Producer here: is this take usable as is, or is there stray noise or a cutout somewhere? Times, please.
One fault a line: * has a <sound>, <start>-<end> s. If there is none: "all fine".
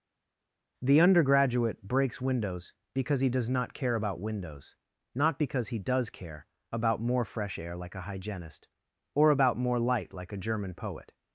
all fine